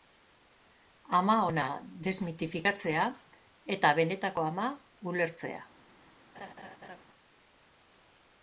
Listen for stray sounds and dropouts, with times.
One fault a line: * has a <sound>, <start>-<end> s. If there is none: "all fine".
* has a laugh, 6.3-7.0 s